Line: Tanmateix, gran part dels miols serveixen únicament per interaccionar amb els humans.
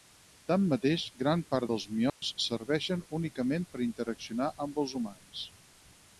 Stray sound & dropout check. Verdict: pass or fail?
fail